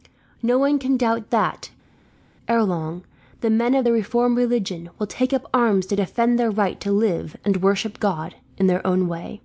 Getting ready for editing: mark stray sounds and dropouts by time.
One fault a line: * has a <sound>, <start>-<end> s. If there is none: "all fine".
all fine